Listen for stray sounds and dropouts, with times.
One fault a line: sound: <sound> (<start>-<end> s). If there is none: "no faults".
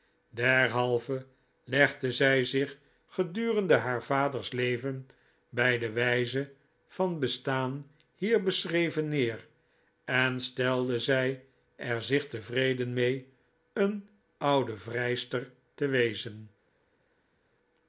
no faults